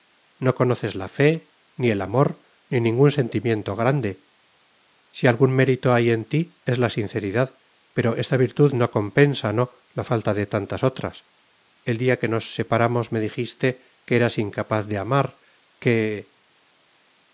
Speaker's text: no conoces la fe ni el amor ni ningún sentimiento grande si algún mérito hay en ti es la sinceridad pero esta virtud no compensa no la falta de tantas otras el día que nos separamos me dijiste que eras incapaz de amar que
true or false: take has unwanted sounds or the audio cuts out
false